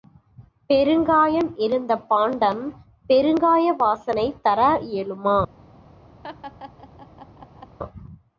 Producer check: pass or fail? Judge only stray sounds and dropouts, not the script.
fail